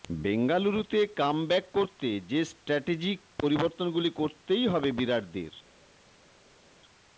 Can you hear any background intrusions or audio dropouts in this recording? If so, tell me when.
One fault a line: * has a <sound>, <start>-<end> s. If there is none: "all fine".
all fine